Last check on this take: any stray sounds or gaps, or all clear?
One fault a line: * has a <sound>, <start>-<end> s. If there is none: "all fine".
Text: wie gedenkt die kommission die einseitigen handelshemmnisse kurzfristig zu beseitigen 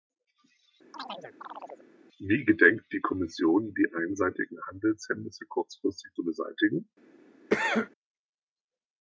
* has a chirp, 0.9-1.9 s
* has a cough, 7.5-7.9 s